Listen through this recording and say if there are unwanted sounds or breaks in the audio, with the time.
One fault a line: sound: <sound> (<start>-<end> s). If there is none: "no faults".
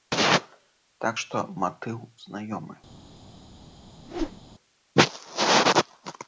sound: whoosh (4.0-4.4 s)